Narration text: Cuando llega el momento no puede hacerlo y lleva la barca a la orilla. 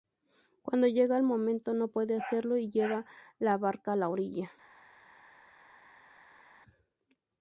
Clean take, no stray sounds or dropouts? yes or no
yes